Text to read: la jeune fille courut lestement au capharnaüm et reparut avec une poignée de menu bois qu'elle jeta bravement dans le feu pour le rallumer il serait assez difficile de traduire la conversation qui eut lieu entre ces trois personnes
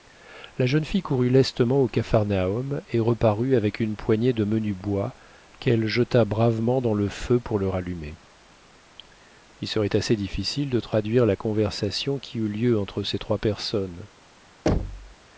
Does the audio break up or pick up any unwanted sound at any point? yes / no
yes